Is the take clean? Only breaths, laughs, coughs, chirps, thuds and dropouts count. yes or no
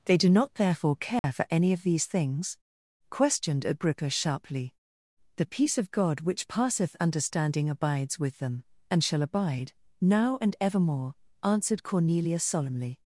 no